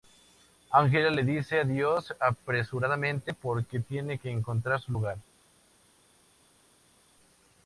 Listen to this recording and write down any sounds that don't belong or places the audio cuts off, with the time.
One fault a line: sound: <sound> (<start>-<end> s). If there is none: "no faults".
no faults